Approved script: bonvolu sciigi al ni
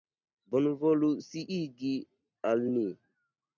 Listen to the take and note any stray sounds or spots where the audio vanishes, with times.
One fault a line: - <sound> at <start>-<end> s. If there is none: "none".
none